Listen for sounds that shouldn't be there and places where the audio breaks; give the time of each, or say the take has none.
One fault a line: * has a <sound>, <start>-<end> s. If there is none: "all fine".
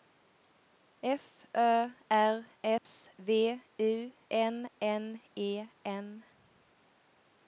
* has a dropout, 2.8-2.9 s